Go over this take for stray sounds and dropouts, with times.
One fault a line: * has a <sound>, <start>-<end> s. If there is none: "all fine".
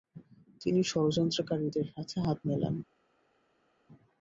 all fine